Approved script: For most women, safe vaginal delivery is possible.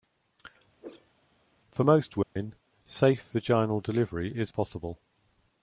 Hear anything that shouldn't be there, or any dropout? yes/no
yes